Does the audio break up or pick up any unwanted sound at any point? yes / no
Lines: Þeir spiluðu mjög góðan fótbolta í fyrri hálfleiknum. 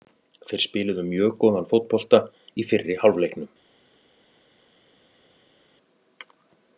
no